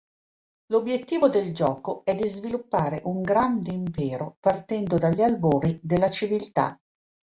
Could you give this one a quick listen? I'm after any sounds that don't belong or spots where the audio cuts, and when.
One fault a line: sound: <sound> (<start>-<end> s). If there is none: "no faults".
no faults